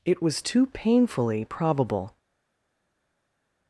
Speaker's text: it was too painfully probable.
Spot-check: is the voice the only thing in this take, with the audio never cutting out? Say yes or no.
yes